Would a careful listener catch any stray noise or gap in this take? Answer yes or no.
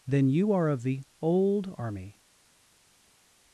no